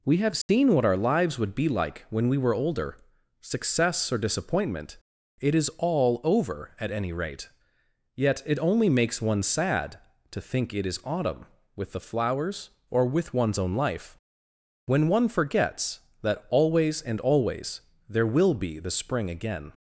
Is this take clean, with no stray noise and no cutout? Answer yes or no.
no